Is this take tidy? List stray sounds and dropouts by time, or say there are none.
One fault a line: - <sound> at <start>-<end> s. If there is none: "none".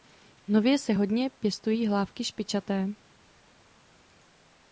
none